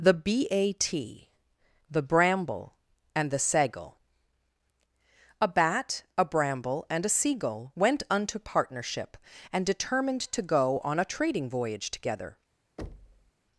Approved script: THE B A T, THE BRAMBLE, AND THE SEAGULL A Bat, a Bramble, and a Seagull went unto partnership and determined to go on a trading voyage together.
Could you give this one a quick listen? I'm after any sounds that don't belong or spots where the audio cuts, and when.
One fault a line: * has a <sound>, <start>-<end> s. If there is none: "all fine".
* has a thud, 12.8-13.3 s